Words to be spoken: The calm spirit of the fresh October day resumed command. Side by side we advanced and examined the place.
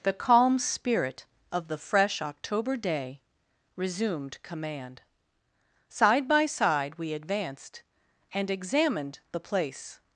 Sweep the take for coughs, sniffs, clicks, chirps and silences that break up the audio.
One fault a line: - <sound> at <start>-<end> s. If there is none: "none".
none